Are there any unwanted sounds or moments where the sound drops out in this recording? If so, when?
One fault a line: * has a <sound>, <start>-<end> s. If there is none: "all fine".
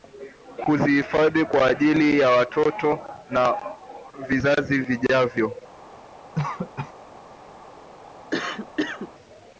* has a cough, 6.4-6.9 s
* has a cough, 8.3-9.1 s